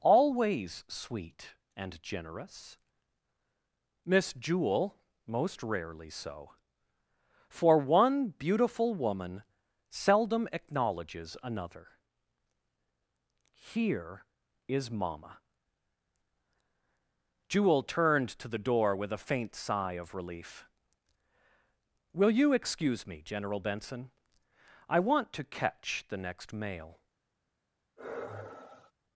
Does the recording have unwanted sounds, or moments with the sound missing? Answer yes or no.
yes